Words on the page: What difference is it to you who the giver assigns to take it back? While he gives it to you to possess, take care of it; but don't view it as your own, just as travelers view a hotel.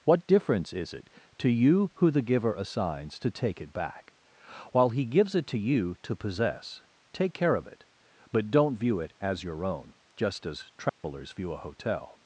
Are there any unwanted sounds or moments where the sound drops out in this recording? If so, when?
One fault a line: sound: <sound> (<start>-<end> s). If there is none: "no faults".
sound: dropout (10.9-11.0 s)